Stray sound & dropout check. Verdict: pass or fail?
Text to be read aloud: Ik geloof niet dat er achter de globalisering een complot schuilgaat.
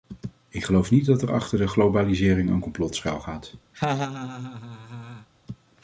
fail